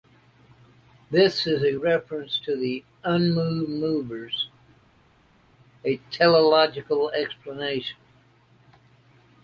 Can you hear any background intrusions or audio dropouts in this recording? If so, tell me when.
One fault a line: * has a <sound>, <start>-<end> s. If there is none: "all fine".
all fine